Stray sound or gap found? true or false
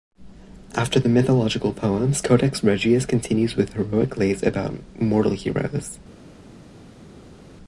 false